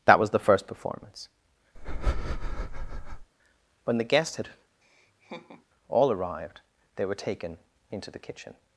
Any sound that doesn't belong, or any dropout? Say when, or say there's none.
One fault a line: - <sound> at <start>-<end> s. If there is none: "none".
- breath at 1.7-3.3 s
- laugh at 4.8-5.7 s